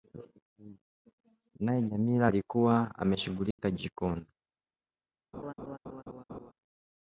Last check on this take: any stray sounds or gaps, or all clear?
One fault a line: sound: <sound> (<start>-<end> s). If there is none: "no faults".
sound: dropout (3.5-3.6 s)
sound: laugh (5.3-6.5 s)